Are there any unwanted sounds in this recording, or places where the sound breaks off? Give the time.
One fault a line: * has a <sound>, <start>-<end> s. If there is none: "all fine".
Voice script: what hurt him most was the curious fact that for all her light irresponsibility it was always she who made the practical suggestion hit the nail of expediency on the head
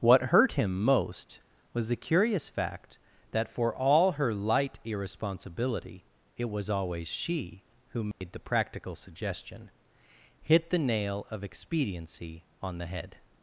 * has a dropout, 8.1-8.2 s